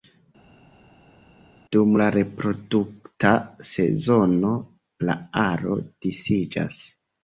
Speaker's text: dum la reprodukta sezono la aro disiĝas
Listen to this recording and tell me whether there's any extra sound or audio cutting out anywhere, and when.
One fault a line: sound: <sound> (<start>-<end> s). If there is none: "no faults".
no faults